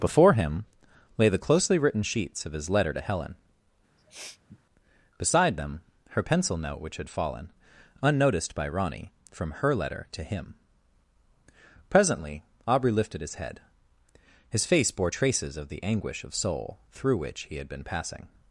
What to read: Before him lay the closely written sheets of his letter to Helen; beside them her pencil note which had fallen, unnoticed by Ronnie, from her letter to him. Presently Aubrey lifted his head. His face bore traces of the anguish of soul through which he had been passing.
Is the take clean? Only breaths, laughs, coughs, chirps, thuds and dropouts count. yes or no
no